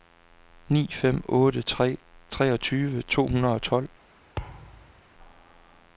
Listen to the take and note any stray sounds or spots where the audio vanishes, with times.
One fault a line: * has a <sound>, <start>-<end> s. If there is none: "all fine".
* has a thud, 4.4-5.0 s